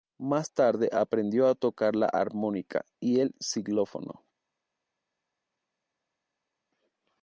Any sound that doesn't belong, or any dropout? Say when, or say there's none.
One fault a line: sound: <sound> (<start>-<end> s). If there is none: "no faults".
no faults